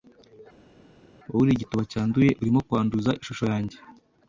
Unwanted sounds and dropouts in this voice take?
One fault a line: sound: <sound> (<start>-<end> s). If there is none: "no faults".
no faults